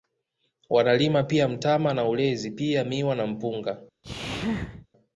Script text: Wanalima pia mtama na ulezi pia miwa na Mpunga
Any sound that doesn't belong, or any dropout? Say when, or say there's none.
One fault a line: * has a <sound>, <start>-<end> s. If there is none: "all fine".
* has a sneeze, 4.0-4.9 s